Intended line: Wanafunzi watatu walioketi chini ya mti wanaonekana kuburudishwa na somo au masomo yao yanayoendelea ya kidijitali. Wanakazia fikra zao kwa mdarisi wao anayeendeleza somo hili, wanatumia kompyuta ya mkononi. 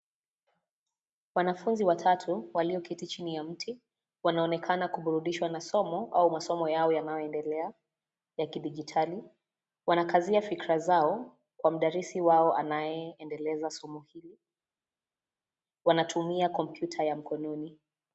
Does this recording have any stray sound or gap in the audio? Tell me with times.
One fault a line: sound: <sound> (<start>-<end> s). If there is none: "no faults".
no faults